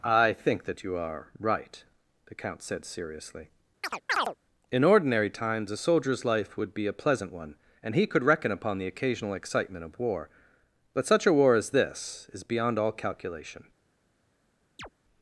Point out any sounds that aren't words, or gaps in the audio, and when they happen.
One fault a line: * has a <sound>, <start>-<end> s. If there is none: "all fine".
* has a chirp, 3.8-4.4 s
* has a chirp, 14.8-14.9 s